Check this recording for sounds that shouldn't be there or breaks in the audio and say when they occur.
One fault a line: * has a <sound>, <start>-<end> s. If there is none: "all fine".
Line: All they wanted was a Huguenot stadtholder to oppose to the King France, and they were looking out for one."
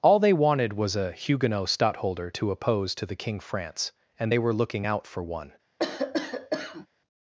* has a cough, 5.8-6.9 s